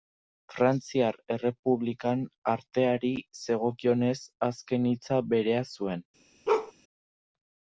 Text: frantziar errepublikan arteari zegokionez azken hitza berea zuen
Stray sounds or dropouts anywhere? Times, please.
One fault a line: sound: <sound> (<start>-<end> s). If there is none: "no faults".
sound: bark (6.5-6.7 s)